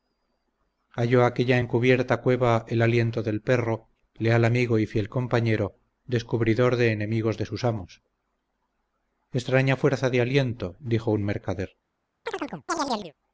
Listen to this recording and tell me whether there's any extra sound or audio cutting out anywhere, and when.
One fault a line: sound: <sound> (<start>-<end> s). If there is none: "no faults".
sound: chirp (12.3-13.1 s)